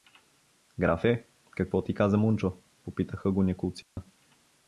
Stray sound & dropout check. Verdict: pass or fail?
fail